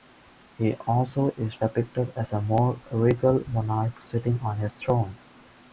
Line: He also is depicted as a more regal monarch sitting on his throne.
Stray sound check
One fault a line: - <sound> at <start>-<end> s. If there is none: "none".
none